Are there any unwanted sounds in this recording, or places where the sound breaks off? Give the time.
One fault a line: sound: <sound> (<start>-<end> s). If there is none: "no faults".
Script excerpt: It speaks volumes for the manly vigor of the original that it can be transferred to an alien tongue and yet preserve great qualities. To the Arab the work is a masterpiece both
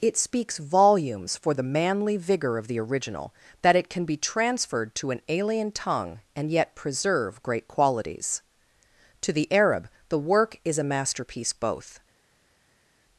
no faults